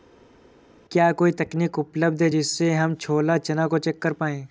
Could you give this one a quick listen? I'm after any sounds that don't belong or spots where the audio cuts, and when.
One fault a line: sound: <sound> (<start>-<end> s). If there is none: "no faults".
no faults